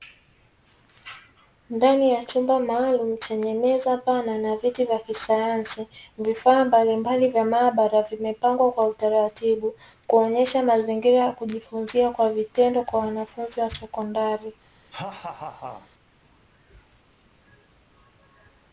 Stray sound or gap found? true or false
true